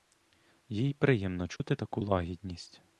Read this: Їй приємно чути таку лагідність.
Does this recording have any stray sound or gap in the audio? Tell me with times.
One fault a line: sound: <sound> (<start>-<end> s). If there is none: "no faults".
sound: dropout (1.6-1.6 s)